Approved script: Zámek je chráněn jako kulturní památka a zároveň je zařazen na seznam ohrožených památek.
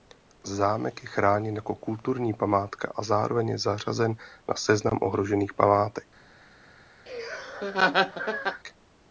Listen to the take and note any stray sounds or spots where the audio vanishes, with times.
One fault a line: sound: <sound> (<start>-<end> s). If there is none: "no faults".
sound: laugh (7.1-8.6 s)